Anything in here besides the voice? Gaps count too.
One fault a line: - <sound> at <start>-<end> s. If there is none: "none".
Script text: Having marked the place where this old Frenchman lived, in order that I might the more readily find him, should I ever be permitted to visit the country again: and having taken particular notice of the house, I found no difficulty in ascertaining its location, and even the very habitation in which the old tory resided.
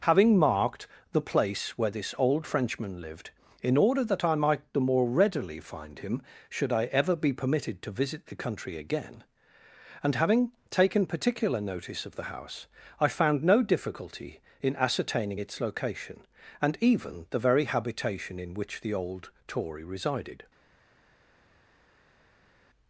none